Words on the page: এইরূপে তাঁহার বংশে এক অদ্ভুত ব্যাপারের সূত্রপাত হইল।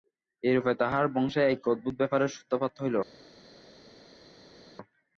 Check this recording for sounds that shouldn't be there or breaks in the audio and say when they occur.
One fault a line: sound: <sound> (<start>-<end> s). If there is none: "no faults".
no faults